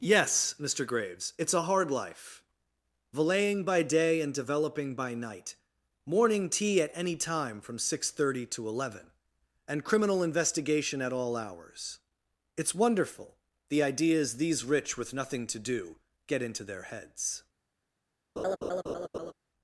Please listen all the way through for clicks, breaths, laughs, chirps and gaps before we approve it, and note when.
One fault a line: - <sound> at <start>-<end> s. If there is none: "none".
- laugh at 18.4-19.3 s